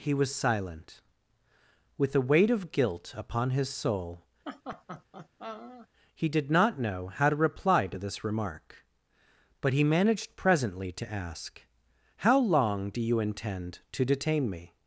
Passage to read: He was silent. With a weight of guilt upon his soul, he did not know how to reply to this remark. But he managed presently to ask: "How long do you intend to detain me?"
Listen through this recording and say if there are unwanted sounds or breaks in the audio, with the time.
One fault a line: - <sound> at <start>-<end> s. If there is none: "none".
- laugh at 4.5-5.9 s